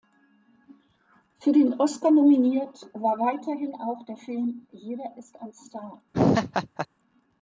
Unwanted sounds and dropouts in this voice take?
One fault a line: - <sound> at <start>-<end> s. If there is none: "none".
- laugh at 6.1-6.9 s